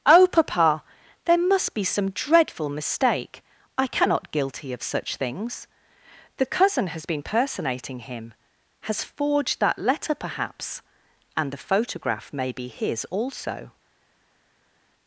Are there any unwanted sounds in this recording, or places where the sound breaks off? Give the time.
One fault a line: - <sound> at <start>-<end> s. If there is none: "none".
none